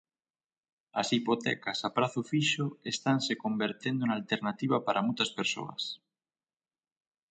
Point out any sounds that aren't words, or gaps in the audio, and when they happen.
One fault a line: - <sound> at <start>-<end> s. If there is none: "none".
none